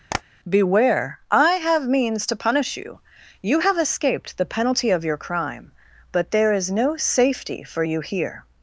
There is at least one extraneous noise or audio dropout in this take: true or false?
true